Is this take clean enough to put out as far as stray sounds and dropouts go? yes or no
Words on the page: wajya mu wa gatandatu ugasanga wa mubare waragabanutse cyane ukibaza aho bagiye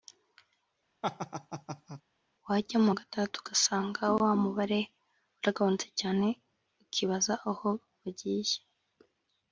no